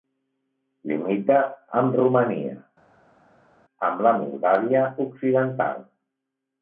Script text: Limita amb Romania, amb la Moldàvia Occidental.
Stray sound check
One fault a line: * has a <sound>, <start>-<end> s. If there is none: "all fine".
all fine